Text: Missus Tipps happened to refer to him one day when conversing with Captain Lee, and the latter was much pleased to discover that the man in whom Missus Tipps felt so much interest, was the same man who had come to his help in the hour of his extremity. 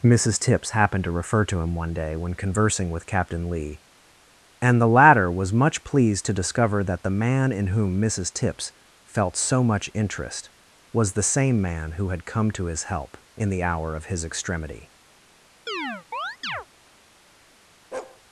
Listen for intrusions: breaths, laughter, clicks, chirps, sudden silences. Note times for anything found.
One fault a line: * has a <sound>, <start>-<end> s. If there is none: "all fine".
* has a chirp, 15.7-16.7 s
* has a bark, 17.9-18.2 s